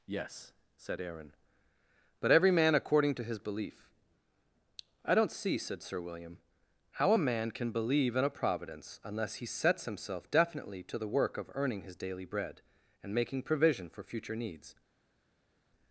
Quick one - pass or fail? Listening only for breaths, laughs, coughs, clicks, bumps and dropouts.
pass